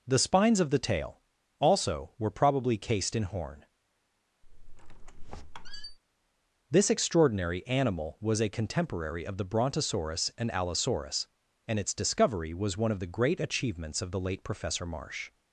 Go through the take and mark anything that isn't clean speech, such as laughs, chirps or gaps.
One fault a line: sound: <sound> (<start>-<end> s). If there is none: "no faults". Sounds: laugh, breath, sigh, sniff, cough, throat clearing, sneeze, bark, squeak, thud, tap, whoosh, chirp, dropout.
sound: squeak (4.4-6.0 s)